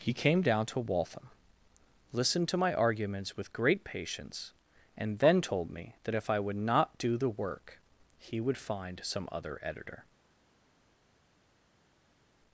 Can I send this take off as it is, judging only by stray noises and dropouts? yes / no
yes